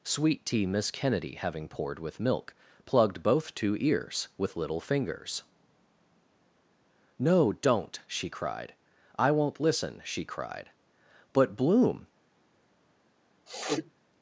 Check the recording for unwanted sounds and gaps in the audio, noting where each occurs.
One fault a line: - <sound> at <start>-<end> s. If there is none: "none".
- sniff at 13.5-13.9 s